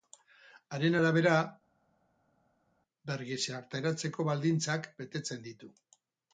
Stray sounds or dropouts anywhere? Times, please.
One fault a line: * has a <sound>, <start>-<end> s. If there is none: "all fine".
all fine